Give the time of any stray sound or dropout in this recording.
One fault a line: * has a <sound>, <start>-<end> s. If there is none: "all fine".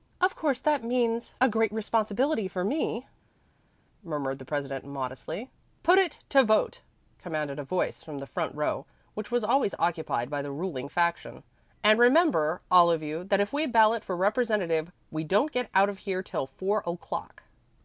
all fine